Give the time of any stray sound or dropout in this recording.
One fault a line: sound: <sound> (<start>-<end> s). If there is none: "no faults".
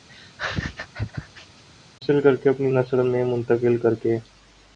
sound: laugh (0.1-1.6 s)